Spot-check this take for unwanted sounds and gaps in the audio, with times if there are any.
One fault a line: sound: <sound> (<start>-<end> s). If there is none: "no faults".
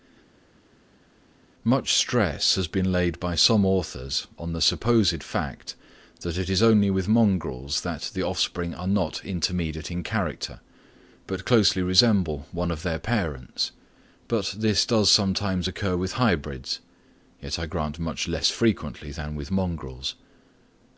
no faults